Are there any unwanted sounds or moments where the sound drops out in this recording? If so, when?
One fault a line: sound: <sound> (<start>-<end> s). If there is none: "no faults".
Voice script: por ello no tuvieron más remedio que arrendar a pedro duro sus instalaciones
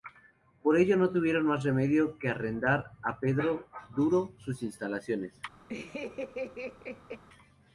sound: laugh (5.7-7.2 s)